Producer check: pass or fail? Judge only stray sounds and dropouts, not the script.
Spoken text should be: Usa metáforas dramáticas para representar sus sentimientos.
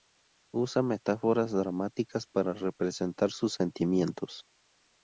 pass